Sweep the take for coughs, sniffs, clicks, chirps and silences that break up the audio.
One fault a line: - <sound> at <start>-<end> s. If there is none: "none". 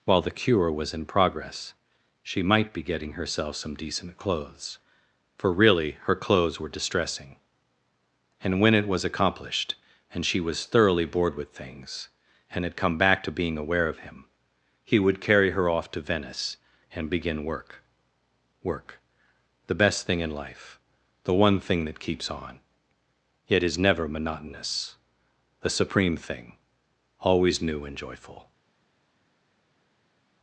none